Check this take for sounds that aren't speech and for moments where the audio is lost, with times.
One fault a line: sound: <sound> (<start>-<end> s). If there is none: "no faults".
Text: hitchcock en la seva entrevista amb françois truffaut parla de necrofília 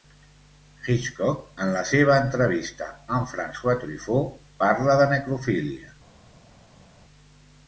no faults